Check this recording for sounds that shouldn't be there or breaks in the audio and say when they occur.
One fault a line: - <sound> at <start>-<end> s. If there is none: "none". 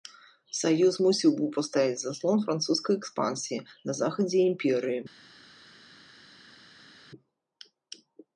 none